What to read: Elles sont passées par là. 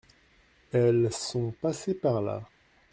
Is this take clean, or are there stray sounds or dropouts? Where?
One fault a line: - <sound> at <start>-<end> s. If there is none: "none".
none